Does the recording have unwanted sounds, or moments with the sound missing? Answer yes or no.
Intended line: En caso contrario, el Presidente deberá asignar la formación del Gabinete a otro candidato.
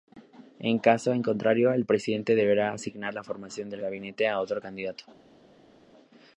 no